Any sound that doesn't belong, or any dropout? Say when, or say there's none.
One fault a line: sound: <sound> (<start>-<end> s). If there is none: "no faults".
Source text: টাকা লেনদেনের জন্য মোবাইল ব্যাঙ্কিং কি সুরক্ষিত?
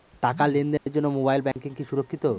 sound: dropout (0.8-0.9 s)
sound: dropout (1.5-1.6 s)